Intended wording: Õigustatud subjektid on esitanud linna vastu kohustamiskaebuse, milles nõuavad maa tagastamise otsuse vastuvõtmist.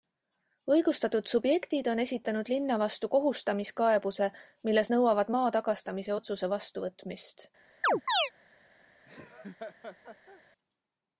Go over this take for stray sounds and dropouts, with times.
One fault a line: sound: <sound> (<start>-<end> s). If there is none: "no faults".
sound: chirp (7.8-8.3 s)
sound: laugh (9.0-10.4 s)